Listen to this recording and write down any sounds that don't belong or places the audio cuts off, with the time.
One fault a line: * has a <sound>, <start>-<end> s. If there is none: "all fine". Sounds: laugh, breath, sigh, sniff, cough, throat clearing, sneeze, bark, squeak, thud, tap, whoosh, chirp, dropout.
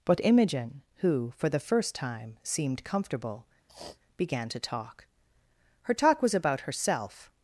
* has a sniff, 3.7-4.0 s